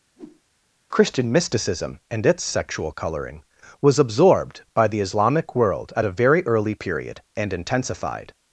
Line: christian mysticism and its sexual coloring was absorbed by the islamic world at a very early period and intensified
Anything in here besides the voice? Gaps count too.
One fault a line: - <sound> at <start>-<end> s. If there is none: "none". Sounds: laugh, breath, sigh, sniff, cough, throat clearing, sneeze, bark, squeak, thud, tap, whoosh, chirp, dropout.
- whoosh at 0.2-0.4 s